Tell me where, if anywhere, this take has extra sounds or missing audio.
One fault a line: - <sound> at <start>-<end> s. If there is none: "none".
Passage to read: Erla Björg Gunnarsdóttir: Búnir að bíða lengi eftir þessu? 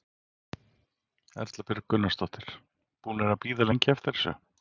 none